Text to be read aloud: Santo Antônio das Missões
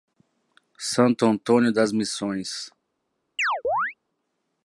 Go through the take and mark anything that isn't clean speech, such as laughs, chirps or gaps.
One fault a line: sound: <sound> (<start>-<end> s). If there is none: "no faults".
sound: chirp (3.4-3.9 s)